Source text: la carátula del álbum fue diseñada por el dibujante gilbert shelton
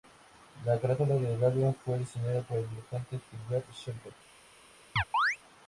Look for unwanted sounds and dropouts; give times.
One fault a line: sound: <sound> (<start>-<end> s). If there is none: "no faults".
sound: chirp (5.0-5.4 s)